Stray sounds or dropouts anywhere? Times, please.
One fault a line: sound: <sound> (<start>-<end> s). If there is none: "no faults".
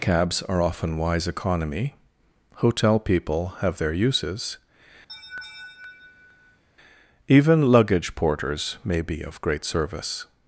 sound: laugh (5.1-6.6 s)